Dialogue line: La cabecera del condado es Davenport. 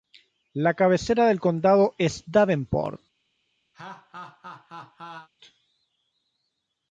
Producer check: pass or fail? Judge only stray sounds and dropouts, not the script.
fail